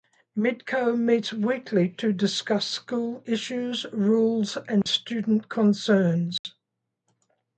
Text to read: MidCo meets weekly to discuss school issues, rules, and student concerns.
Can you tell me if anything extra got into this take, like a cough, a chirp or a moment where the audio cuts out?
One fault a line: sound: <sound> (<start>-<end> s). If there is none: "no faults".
sound: dropout (4.8-4.9 s)
sound: dropout (6.4-6.4 s)